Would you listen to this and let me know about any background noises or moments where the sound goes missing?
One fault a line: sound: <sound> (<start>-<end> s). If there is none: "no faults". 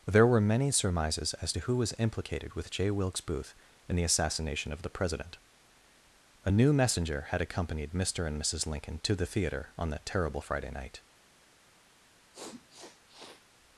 sound: sniff (12.3-13.5 s)